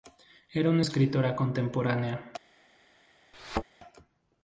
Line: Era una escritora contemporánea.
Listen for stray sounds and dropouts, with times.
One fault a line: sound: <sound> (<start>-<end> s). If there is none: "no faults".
sound: thud (3.3-3.6 s)